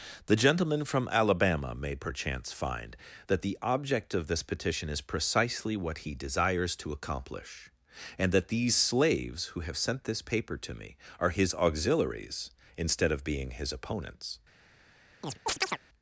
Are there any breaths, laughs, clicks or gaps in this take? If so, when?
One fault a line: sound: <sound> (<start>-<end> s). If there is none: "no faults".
sound: chirp (15.2-15.8 s)